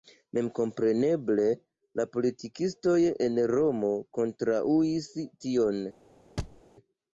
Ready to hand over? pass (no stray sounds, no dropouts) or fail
fail